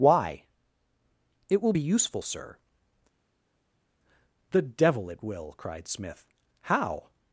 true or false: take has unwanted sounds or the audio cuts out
false